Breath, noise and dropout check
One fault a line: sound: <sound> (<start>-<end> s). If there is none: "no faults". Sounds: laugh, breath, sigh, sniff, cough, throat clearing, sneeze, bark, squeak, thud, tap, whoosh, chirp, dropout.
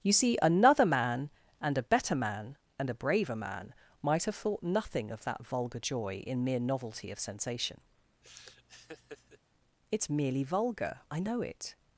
sound: laugh (8.2-9.4 s)